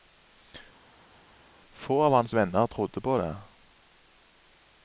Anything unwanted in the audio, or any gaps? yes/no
no